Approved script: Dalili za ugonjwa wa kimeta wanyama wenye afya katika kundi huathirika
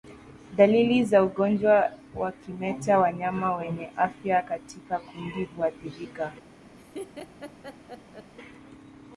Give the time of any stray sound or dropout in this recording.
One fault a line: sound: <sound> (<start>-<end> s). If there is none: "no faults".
sound: laugh (6.8-8.3 s)